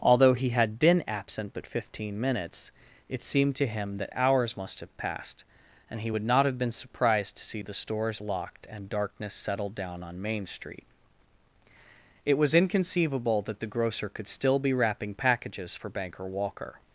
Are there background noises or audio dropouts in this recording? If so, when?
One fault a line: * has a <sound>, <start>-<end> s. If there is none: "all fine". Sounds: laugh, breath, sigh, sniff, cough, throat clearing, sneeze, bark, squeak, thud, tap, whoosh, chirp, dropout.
all fine